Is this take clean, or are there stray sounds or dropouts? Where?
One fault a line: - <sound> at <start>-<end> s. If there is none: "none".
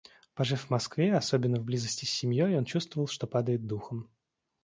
none